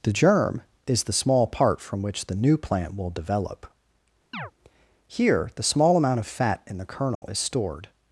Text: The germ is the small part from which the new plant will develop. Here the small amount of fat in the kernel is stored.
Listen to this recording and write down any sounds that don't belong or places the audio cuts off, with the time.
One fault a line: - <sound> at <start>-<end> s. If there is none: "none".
- chirp at 4.3-4.5 s
- dropout at 7.1-7.2 s